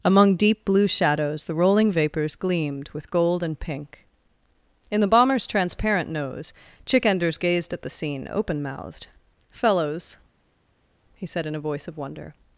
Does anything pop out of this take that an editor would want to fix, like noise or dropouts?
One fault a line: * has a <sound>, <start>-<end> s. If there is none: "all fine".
all fine